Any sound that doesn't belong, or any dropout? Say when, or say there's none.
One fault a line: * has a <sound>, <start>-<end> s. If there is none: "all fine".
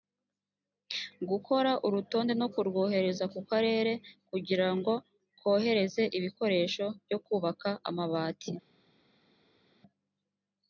all fine